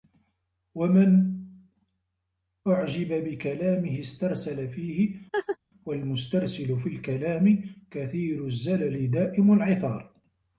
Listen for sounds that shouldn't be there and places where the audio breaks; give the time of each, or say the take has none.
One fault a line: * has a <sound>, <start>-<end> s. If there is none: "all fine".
* has a laugh, 5.3-5.6 s